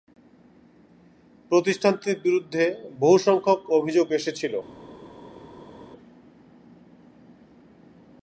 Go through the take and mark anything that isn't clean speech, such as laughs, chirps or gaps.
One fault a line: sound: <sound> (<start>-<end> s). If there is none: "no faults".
no faults